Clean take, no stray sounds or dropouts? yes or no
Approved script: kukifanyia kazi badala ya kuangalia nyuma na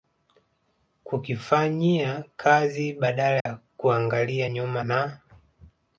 no